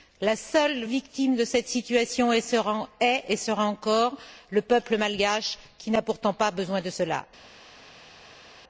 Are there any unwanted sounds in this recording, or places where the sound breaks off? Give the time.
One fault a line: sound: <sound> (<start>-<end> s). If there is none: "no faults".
no faults